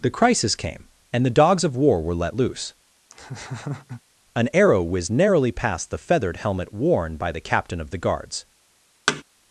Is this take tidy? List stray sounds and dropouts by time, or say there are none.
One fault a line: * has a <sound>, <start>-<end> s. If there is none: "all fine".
* has a laugh, 3.1-4.0 s
* has a thud, 9.1-9.2 s